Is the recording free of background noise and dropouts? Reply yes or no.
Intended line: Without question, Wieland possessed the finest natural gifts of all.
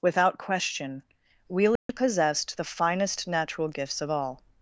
no